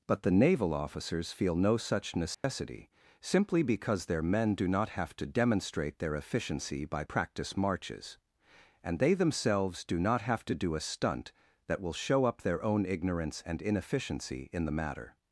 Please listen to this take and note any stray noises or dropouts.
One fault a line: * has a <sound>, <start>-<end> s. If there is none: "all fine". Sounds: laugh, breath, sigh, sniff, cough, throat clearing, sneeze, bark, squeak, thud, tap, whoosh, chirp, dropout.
* has a dropout, 2.3-2.4 s